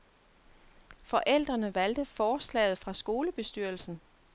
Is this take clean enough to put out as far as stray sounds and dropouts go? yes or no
yes